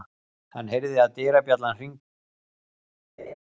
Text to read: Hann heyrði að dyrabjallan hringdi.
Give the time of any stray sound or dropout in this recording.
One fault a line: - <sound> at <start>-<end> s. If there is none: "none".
- laugh at 3.2-3.3 s